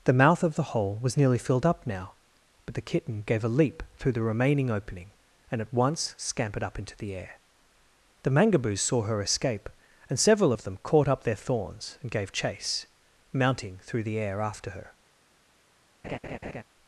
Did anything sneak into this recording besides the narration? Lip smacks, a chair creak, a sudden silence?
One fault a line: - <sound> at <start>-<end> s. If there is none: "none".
- laugh at 16.0-16.6 s